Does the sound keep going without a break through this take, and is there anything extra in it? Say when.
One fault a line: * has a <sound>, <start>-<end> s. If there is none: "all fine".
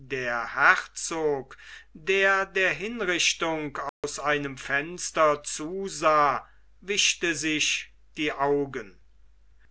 * has a dropout, 3.9-4.0 s